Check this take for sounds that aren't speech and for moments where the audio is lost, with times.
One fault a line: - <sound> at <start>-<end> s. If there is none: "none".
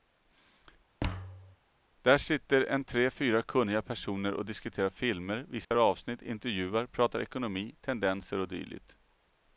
- thud at 1.0-1.6 s
- dropout at 5.6-5.7 s